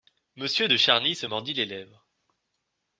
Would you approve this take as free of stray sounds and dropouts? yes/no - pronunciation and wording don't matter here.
yes